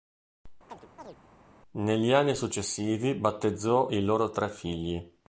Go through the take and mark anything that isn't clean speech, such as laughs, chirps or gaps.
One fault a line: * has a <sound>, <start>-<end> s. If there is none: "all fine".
* has a chirp, 0.7-1.2 s